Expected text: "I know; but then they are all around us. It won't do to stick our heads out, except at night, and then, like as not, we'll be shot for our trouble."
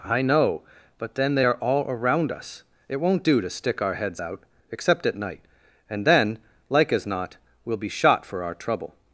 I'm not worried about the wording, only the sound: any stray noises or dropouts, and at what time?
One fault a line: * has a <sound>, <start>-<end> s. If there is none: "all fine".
all fine